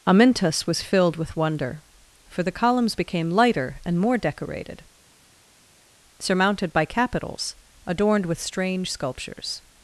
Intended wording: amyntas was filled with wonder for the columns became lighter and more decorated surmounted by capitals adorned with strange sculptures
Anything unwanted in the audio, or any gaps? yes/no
no